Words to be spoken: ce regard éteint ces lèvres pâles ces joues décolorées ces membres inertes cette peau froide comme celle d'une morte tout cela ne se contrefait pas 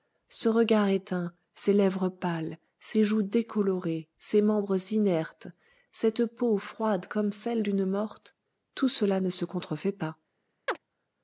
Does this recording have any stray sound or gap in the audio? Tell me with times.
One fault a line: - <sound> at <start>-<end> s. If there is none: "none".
- chirp at 10.7-10.8 s